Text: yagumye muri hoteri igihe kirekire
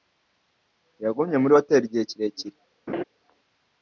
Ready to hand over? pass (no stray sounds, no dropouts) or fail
fail